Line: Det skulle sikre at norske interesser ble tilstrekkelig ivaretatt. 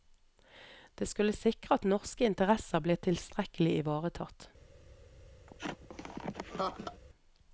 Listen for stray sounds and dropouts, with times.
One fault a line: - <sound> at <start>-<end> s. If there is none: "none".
- laugh at 5.5-7.0 s